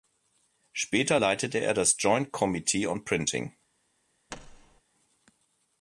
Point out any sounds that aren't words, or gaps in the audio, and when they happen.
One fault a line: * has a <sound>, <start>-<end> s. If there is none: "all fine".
* has a thud, 4.3-4.8 s